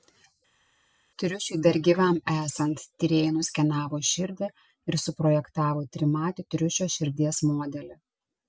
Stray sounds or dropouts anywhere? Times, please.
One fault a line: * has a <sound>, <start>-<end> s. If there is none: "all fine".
all fine